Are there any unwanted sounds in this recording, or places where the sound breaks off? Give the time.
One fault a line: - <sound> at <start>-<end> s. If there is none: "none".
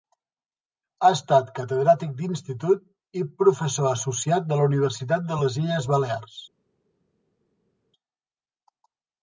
none